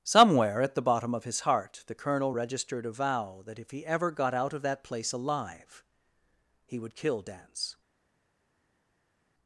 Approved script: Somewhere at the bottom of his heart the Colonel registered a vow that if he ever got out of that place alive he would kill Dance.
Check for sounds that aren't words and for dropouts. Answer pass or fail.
pass